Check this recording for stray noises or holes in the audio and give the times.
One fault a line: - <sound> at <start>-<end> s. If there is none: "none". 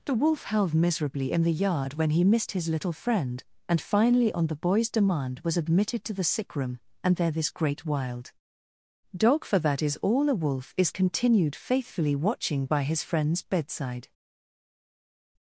none